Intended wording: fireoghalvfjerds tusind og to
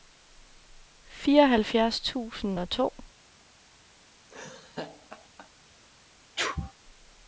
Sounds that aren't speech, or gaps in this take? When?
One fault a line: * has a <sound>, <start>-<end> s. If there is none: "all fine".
* has a laugh, 4.3-5.5 s
* has a sneeze, 6.4-6.7 s